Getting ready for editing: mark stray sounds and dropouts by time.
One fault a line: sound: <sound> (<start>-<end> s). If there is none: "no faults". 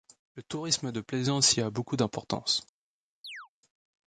sound: chirp (3.2-3.5 s)